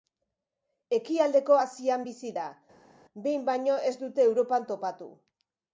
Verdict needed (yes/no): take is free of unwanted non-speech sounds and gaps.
yes